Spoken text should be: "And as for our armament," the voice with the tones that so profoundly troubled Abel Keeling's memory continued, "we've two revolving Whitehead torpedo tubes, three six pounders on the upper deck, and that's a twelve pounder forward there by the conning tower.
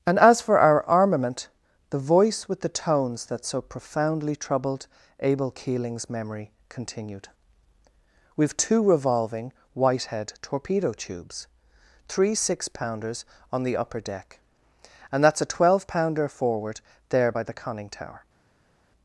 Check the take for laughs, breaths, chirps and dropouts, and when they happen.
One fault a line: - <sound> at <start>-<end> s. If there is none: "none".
none